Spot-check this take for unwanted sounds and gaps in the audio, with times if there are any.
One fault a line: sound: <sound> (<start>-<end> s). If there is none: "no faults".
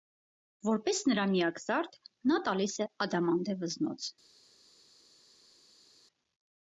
no faults